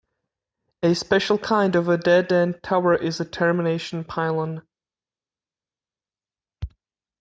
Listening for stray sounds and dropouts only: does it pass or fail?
pass